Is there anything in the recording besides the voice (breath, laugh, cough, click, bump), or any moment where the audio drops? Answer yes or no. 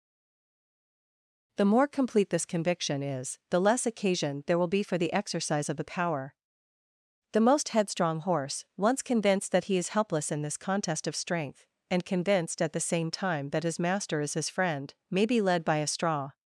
no